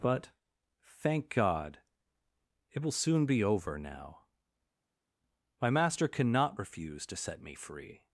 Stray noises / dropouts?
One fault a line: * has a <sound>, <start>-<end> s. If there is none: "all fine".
all fine